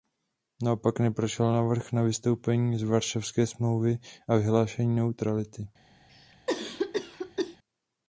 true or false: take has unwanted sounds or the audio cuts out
true